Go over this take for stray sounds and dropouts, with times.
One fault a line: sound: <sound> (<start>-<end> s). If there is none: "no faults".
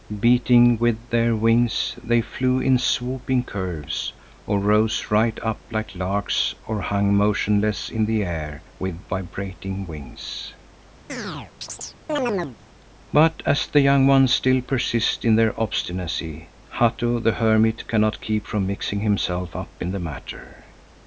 sound: chirp (11.1-12.6 s)